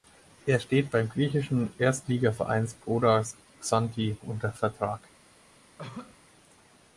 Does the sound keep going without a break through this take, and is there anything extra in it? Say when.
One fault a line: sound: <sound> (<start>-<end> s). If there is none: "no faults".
sound: cough (5.8-6.2 s)